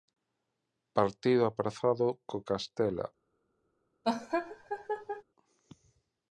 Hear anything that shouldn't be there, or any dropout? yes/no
yes